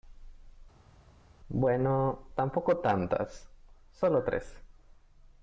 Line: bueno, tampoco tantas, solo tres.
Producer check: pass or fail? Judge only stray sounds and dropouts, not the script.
pass